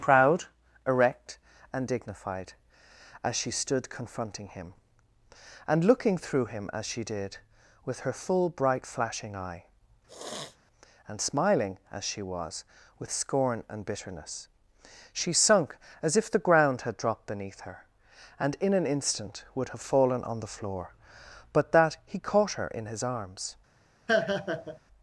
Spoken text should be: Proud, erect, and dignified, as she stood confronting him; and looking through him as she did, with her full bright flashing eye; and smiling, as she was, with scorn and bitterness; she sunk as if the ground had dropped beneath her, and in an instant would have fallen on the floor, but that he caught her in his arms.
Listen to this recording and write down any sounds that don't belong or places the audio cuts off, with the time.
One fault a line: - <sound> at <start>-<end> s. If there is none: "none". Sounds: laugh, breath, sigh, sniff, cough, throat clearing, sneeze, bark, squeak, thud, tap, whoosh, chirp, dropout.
- sniff at 10.1-10.6 s
- laugh at 24.1-24.8 s